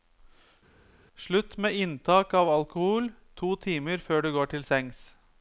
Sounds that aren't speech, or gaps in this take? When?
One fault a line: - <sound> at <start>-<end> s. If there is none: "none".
none